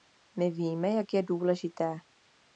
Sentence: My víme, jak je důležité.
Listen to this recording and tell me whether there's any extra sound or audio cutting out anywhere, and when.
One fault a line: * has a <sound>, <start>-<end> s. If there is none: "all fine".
all fine